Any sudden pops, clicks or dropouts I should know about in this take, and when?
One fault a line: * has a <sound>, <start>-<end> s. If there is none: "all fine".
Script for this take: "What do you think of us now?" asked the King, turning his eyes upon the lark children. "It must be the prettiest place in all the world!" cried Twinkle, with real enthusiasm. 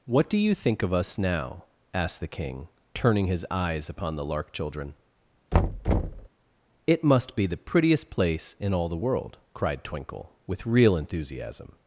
* has a thud, 5.5-6.3 s